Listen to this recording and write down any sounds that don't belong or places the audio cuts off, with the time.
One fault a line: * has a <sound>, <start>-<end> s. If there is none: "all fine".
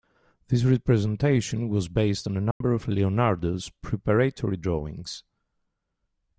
* has a dropout, 2.5-2.6 s